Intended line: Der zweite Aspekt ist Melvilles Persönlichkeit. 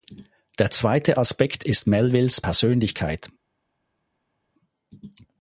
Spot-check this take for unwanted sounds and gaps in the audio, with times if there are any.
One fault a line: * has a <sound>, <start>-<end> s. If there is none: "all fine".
all fine